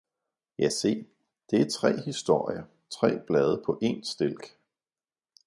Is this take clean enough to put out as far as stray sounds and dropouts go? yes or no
yes